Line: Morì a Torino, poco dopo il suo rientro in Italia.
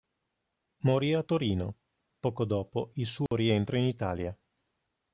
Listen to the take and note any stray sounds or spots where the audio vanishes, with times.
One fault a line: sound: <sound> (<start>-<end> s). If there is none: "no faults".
sound: dropout (3.3-3.3 s)